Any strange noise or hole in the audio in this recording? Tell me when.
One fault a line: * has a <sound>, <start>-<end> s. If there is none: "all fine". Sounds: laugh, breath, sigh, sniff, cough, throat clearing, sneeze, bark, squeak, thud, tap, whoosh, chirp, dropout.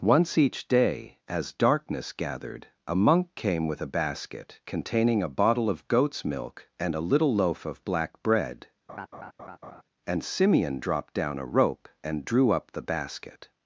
* has a laugh, 8.9-9.8 s